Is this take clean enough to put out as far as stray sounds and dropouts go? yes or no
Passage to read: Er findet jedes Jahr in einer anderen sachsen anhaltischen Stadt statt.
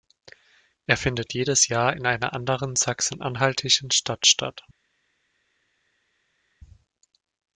yes